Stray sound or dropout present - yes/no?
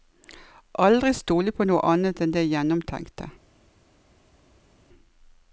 no